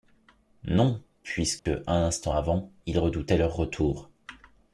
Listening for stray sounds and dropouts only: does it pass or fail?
fail